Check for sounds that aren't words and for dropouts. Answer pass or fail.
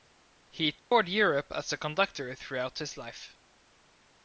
fail